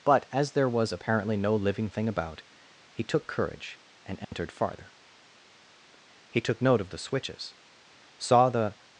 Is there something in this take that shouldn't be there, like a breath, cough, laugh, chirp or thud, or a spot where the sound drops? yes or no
yes